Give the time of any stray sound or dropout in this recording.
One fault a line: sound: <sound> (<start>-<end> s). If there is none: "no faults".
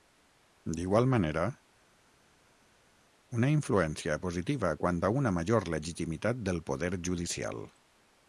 no faults